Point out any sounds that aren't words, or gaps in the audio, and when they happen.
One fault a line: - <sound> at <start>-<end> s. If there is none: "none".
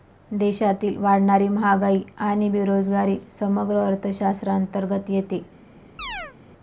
- chirp at 6.0-6.4 s